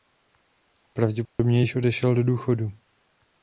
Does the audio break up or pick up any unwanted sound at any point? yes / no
yes